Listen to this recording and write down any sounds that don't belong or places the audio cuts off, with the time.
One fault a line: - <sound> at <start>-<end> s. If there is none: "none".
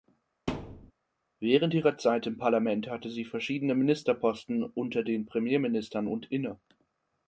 - thud at 0.5-0.9 s